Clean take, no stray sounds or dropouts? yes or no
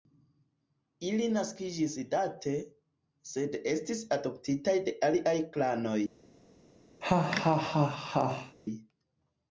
no